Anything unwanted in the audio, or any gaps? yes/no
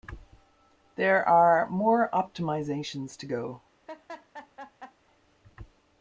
yes